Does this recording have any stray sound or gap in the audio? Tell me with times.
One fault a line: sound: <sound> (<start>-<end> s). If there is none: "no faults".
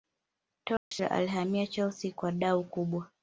sound: dropout (0.8-0.9 s)